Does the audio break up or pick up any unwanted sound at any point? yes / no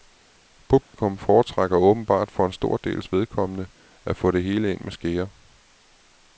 yes